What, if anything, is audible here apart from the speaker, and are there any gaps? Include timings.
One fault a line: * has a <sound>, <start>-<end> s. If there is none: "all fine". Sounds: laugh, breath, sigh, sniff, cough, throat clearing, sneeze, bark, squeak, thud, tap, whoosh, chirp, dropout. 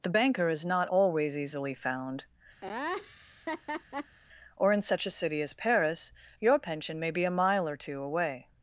* has a laugh, 2.6-4.2 s